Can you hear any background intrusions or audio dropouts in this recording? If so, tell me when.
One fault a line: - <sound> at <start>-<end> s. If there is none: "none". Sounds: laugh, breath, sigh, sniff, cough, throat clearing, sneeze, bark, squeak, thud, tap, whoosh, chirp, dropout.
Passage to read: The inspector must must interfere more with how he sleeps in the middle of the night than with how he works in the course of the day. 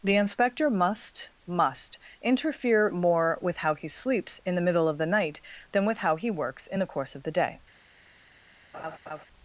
- laugh at 8.7-9.3 s